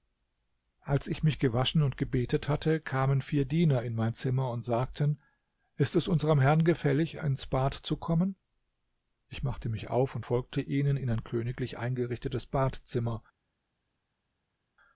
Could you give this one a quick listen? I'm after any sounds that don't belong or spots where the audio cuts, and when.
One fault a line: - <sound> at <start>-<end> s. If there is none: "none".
none